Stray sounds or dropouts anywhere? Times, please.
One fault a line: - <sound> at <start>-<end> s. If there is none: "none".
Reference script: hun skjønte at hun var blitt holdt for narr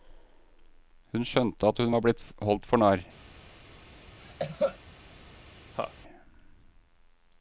- cough at 4.2-4.8 s
- laugh at 5.7-5.9 s